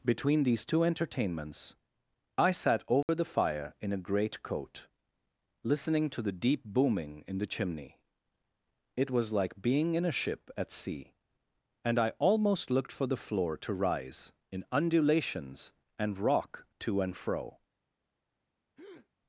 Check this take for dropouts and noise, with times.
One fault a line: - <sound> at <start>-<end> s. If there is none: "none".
- dropout at 3.0-3.1 s
- breath at 18.8-19.1 s